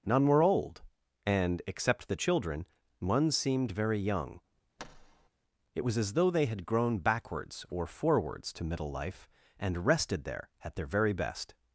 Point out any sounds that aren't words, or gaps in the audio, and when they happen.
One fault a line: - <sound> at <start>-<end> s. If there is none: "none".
- thud at 4.8-5.3 s